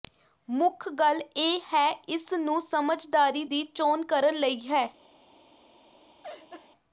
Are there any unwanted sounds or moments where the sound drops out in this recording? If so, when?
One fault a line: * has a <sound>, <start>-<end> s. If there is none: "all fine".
* has a laugh, 6.2-6.7 s